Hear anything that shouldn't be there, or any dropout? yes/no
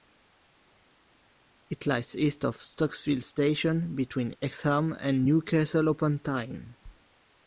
no